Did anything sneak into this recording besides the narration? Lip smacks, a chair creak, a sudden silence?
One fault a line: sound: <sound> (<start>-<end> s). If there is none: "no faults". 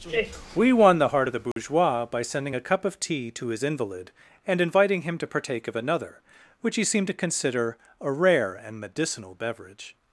sound: dropout (1.5-1.6 s)